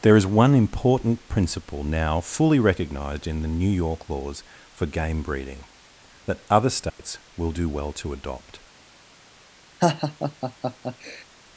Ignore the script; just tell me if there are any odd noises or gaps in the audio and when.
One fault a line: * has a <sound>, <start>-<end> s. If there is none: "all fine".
* has a dropout, 6.9-7.0 s
* has a laugh, 9.8-11.3 s